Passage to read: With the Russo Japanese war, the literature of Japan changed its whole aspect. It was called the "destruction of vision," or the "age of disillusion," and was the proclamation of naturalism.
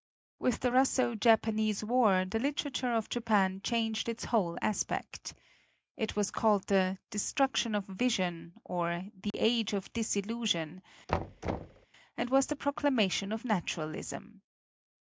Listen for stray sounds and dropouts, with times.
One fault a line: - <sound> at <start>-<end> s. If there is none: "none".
- dropout at 9.3-9.3 s
- thud at 11.1-11.9 s